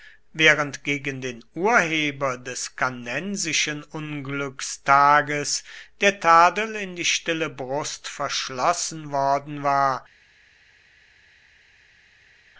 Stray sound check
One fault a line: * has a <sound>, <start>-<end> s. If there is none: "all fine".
all fine